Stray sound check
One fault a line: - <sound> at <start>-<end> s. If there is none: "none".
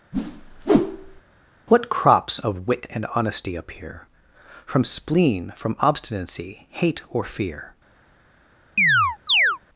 - whoosh at 0.1-1.2 s
- chirp at 8.8-9.6 s